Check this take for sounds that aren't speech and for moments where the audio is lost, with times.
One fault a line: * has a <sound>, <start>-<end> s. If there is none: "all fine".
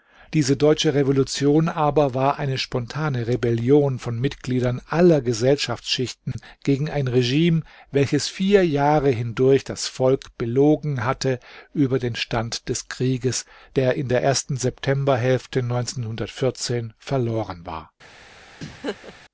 * has a dropout, 6.3-6.4 s
* has a laugh, 18.6-19.1 s